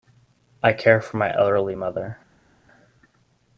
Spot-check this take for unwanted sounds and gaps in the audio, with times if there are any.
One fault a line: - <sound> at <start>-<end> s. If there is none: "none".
none